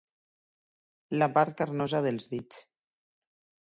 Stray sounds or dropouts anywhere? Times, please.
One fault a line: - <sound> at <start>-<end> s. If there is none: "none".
none